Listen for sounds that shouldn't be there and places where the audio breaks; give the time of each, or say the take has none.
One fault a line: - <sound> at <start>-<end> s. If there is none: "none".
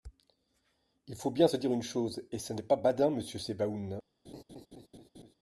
- laugh at 4.2-5.3 s